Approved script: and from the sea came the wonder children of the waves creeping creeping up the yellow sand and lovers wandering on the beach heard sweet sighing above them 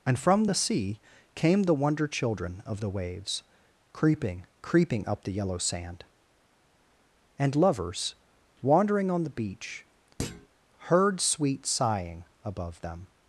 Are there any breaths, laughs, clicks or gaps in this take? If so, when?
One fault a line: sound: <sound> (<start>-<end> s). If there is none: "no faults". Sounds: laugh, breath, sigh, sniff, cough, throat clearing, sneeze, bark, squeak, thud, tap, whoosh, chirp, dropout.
sound: thud (10.2-10.5 s)